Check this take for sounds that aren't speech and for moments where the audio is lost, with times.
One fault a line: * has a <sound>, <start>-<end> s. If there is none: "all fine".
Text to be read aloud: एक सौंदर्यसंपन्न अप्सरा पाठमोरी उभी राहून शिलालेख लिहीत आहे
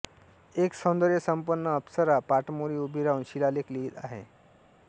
all fine